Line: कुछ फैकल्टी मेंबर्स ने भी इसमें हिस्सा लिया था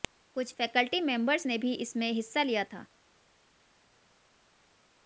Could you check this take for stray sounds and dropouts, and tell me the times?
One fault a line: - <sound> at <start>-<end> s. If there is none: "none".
none